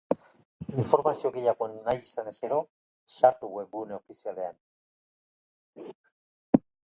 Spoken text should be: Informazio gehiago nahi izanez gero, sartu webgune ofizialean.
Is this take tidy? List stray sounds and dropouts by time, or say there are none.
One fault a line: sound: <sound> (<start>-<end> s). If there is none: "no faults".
no faults